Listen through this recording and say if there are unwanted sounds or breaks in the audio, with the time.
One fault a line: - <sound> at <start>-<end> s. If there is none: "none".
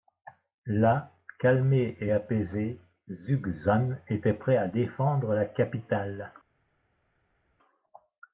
none